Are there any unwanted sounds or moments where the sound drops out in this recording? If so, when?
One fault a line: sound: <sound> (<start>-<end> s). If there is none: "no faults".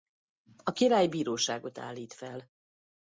no faults